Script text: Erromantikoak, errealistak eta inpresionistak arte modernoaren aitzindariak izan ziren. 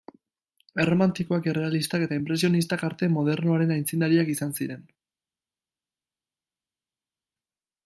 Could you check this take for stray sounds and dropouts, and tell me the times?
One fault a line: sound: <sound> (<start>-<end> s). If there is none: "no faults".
no faults